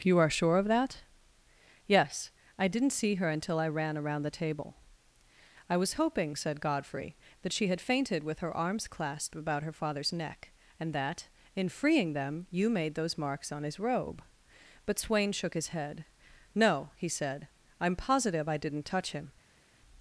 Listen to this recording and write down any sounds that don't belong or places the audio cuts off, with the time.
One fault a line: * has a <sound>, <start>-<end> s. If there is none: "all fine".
all fine